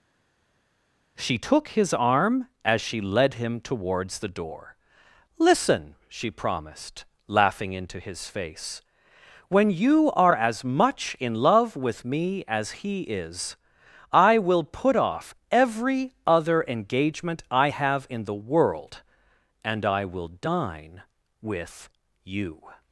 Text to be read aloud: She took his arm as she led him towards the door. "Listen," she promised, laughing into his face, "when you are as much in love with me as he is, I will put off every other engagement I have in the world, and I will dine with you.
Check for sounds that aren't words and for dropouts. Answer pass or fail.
pass